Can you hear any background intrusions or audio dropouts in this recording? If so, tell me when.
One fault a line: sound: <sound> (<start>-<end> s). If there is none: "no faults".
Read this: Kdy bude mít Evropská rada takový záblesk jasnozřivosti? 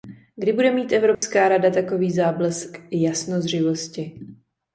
sound: dropout (1.1-1.2 s)